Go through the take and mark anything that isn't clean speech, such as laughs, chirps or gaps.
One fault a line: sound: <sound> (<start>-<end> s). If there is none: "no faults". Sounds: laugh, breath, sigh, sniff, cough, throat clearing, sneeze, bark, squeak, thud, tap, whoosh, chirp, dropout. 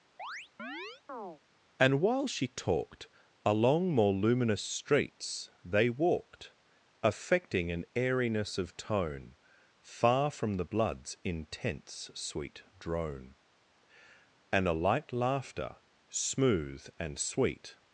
sound: chirp (0.2-1.4 s)